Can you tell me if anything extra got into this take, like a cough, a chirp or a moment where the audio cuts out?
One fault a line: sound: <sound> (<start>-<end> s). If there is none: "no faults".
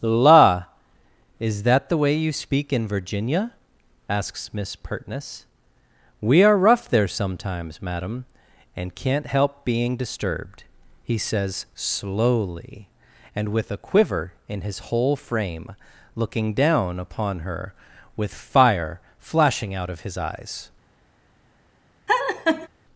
sound: laugh (22.1-22.7 s)